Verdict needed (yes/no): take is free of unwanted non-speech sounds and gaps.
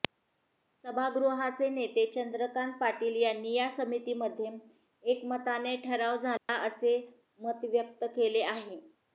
no